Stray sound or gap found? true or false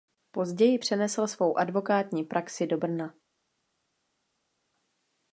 false